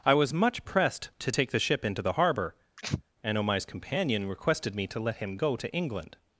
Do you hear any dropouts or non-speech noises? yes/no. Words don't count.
yes